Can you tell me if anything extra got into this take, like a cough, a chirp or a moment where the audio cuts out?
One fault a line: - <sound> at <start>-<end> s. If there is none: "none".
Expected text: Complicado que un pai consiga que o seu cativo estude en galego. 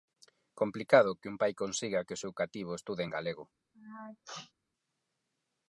- sneeze at 3.7-4.5 s